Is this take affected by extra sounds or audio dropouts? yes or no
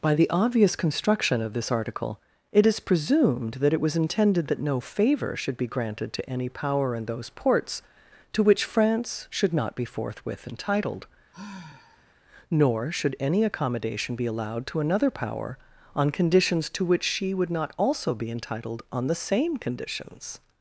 yes